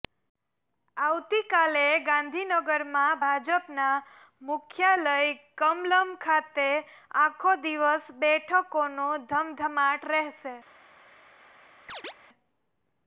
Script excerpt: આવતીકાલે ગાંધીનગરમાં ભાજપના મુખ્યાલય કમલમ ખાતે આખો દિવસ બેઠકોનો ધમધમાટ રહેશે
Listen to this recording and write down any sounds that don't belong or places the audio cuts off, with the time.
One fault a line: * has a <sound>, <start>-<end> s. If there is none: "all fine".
* has a chirp, 11.9-12.1 s